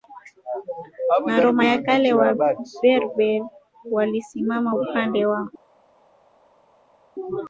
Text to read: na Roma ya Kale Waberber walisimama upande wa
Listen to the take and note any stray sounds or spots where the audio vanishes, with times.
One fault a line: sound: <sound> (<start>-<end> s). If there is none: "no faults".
no faults